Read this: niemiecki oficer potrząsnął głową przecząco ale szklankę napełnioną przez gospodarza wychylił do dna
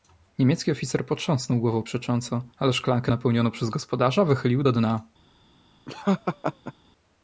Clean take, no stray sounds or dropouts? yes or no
no